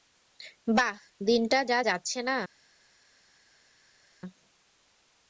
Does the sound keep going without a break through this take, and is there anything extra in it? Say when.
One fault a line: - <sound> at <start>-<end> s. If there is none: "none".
none